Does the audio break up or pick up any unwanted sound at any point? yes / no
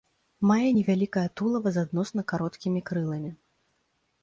no